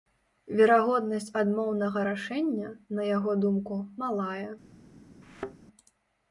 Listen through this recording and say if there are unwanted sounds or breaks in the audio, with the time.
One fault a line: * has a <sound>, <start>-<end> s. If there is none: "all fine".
* has a thud, 5.2-5.6 s